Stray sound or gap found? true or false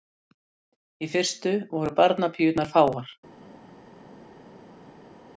false